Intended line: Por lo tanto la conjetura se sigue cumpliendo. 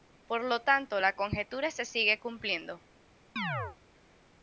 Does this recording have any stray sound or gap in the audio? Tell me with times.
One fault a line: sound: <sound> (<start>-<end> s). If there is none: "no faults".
sound: chirp (3.4-3.8 s)